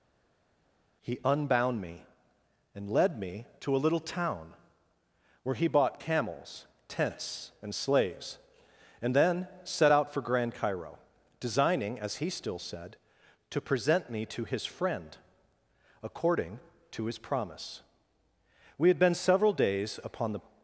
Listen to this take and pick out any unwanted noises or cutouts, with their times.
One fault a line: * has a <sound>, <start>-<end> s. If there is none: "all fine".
all fine